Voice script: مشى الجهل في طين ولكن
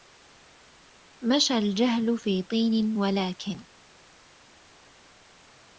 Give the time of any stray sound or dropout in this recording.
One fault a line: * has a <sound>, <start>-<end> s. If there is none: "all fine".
all fine